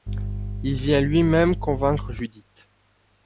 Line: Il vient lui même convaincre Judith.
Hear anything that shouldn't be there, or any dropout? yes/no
no